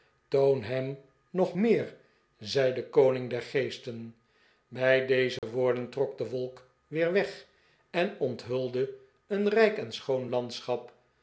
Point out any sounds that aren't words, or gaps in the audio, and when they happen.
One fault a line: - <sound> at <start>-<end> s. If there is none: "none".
- dropout at 5.4-5.4 s